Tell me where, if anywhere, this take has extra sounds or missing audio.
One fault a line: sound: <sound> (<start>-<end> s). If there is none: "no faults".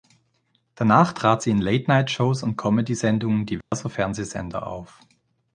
sound: dropout (3.6-3.7 s)